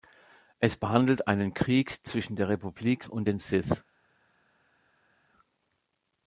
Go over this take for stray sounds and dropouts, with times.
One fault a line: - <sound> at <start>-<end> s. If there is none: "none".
none